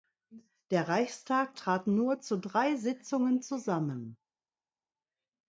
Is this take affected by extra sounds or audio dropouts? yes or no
no